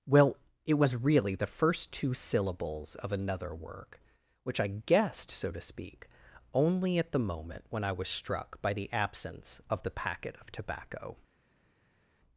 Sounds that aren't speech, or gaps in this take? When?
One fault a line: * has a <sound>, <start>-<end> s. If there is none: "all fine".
all fine